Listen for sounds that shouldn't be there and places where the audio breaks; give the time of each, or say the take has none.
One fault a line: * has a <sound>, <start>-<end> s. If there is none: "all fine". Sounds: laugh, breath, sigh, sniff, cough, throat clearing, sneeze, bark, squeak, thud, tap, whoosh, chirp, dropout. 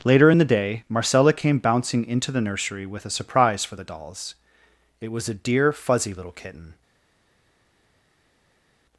all fine